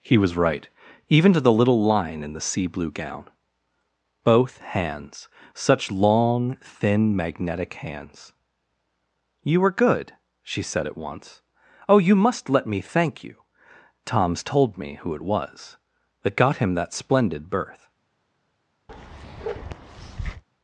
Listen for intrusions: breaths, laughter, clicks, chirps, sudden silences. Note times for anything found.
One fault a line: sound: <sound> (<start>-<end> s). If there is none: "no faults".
sound: bark (18.9-20.4 s)